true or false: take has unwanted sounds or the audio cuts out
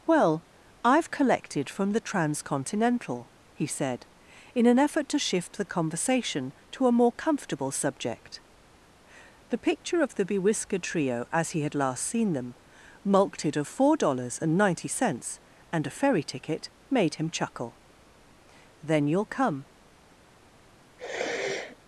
true